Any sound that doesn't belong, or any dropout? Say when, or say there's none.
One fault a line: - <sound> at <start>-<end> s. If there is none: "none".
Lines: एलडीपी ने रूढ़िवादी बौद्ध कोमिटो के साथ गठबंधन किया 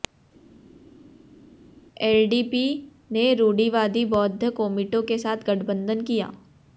none